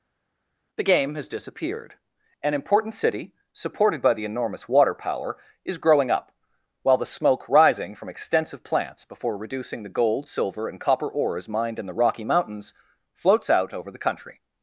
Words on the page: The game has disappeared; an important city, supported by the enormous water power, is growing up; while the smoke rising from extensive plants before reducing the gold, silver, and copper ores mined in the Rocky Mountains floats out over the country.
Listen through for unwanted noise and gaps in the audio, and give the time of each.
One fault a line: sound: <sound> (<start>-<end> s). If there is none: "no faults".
no faults